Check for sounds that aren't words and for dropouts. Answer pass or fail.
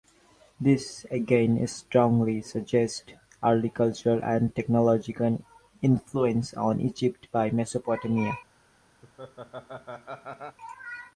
fail